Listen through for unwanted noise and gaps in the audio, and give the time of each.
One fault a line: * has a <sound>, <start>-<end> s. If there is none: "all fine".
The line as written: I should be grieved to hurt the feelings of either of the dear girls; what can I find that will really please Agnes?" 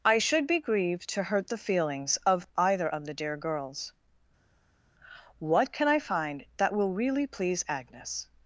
all fine